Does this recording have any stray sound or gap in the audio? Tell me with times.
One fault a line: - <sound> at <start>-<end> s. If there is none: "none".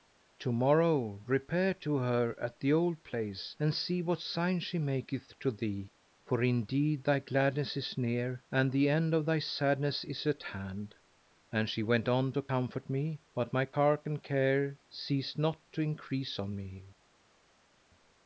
none